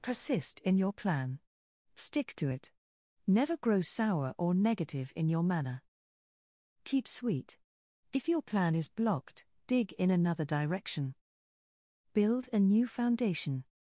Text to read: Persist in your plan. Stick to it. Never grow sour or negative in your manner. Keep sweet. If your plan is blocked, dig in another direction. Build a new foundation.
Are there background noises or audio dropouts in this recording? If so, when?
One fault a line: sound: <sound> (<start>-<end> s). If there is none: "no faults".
no faults